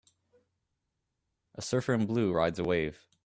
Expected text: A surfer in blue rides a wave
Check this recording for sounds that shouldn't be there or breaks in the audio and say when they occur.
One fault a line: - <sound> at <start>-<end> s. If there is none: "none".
none